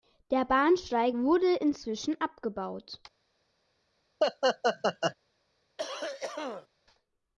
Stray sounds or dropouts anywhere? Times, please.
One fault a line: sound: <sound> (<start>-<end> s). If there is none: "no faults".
sound: laugh (4.2-5.1 s)
sound: cough (5.8-6.7 s)